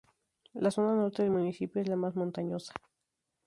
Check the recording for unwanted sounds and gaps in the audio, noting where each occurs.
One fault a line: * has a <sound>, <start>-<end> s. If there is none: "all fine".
all fine